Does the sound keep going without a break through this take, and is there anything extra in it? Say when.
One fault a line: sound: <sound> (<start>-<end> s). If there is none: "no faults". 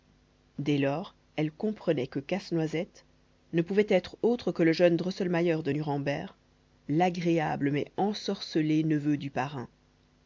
no faults